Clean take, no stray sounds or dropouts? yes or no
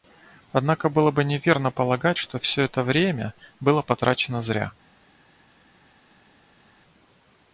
yes